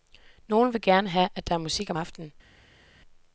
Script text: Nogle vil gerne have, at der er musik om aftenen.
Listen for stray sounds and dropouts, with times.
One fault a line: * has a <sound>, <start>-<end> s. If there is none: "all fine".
all fine